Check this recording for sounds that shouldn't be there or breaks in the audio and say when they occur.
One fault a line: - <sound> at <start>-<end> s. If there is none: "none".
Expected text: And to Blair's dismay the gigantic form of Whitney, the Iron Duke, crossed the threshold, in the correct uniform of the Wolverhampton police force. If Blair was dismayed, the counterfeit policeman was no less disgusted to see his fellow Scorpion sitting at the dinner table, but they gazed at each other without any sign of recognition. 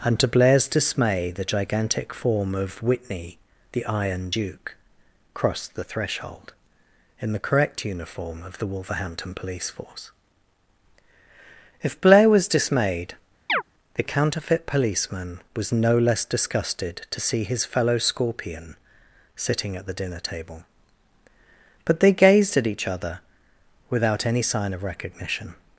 - chirp at 13.5-13.6 s